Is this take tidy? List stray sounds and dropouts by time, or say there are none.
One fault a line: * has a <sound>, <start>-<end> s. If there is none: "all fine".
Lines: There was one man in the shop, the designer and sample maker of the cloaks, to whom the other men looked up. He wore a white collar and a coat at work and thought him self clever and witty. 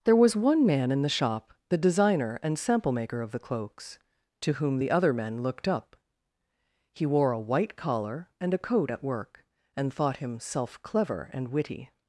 all fine